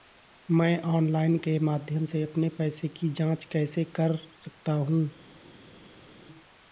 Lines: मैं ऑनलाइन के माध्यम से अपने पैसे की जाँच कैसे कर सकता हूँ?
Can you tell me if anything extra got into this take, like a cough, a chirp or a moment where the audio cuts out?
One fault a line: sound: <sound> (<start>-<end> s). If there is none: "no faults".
no faults